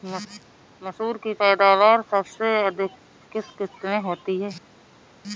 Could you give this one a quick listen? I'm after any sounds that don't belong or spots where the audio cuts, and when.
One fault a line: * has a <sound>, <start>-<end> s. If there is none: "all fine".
all fine